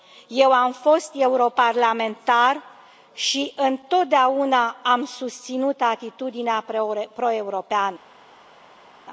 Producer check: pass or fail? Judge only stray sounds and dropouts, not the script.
pass